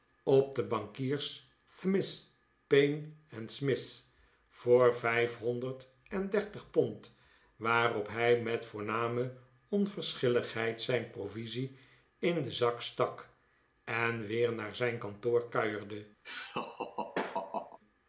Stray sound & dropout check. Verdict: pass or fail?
fail